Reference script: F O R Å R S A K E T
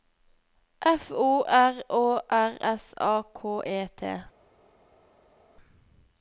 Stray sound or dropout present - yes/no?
no